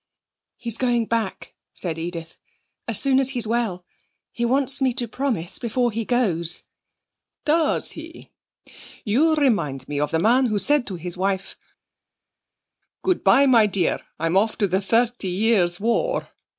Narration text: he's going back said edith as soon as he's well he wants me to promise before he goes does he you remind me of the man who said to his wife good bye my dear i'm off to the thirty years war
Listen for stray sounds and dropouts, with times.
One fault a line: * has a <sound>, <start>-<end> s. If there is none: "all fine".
all fine